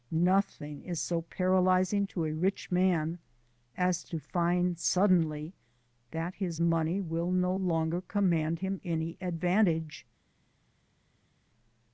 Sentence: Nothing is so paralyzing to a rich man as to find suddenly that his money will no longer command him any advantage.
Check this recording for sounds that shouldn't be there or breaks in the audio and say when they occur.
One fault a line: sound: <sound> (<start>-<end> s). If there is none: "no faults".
no faults